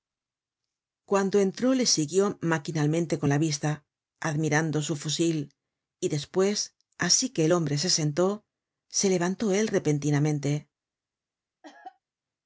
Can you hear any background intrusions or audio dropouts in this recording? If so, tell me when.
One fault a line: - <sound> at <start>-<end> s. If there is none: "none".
- cough at 11.6-12.0 s